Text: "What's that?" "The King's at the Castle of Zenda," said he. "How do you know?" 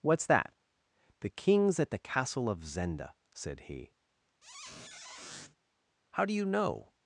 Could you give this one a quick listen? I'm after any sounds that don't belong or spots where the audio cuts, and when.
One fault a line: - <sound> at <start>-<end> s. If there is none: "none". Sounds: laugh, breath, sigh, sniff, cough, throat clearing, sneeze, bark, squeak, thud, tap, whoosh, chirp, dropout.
- squeak at 4.4-5.6 s